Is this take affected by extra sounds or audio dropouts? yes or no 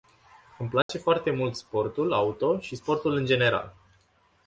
yes